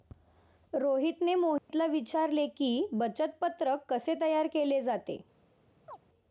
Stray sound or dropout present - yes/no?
yes